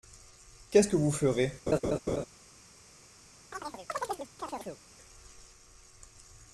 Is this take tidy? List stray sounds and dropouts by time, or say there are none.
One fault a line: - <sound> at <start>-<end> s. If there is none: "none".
- laugh at 1.7-2.3 s
- chirp at 3.5-4.8 s